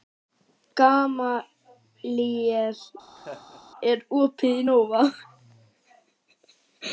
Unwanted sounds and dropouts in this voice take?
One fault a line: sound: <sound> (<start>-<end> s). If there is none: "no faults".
sound: laugh (3.2-3.6 s)